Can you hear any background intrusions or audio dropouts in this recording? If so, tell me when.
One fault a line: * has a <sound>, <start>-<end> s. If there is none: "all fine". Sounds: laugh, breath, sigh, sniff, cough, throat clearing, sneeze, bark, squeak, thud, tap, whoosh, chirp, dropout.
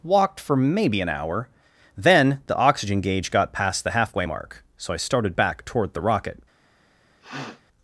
* has a sniff, 7.2-7.6 s